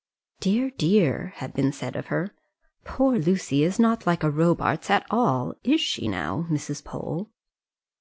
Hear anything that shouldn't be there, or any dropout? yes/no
no